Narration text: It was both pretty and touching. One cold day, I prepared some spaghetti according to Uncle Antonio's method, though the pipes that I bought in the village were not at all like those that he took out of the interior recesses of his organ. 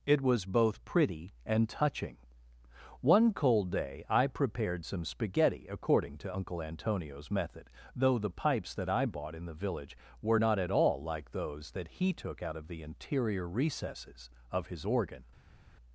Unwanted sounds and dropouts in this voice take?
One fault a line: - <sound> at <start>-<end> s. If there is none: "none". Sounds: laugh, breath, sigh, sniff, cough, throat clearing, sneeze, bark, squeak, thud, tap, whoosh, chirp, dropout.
none